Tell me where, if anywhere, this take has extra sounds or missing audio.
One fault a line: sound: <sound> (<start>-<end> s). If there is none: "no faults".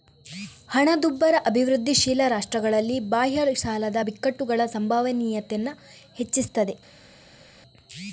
no faults